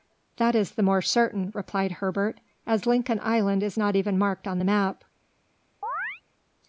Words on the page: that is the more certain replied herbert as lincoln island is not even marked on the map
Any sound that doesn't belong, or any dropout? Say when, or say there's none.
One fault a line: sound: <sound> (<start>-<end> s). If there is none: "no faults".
sound: chirp (5.8-6.2 s)